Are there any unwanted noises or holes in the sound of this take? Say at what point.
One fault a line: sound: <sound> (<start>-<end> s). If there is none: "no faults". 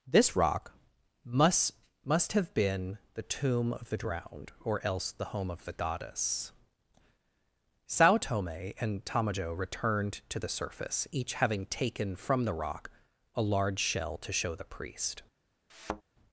sound: thud (15.7-16.0 s)